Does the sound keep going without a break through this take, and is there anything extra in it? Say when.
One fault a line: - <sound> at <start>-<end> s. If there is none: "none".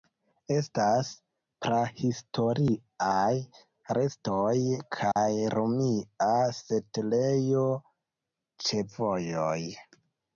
- dropout at 5.1-5.2 s